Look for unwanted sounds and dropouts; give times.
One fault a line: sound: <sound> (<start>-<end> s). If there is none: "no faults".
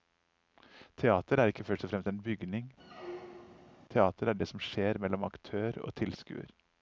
sound: squeak (2.8-3.8 s)